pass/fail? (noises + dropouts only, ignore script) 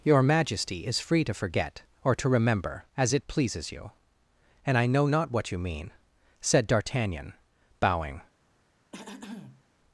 fail